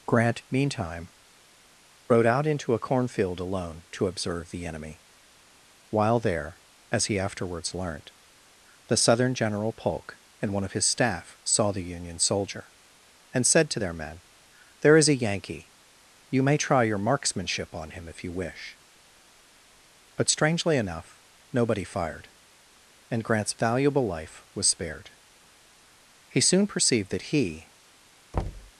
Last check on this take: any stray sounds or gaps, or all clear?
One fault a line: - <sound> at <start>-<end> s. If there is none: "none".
- thud at 28.3-28.7 s